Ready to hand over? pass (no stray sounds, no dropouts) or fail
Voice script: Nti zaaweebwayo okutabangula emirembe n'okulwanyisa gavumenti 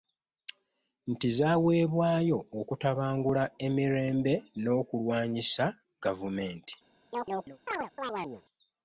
fail